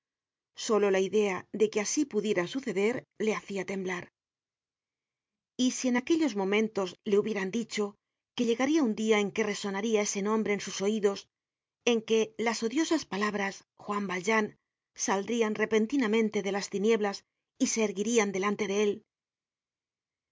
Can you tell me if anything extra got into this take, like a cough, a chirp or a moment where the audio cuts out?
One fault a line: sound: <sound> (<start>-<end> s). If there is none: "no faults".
no faults